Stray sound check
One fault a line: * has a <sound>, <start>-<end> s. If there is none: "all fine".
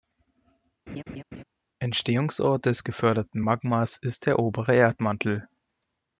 * has a laugh, 0.9-1.4 s